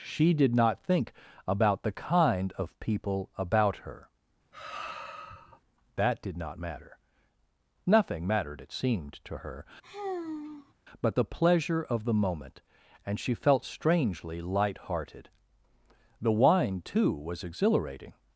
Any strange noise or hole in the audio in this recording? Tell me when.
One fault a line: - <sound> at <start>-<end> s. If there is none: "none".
- sigh at 4.5-5.6 s
- sigh at 9.8-10.7 s